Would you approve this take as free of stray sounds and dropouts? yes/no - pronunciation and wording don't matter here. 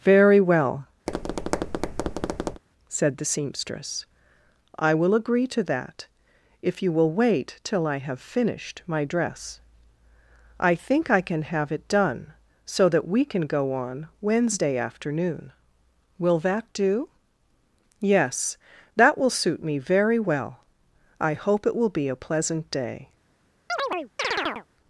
no